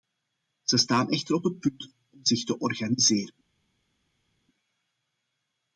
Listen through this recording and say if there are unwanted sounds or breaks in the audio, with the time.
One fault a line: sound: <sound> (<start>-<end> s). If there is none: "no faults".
no faults